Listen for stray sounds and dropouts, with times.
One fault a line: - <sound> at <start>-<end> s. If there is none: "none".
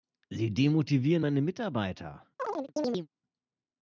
- chirp at 2.4-3.1 s